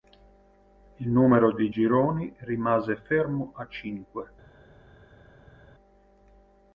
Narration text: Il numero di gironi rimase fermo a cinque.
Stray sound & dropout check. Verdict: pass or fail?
pass